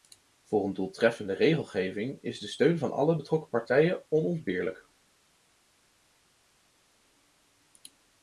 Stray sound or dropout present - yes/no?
no